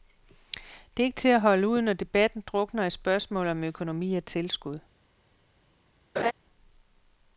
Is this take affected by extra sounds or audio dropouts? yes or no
yes